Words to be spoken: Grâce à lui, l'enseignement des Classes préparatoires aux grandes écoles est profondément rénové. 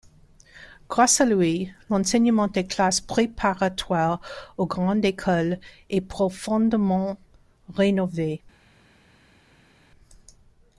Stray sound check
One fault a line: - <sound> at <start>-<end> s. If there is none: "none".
none